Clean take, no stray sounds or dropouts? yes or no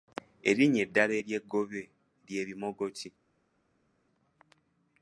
yes